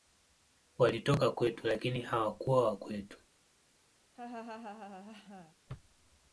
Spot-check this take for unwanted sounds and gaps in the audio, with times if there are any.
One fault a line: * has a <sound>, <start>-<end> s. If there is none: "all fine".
* has a laugh, 4.1-5.6 s